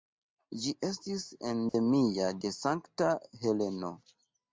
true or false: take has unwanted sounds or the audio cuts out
true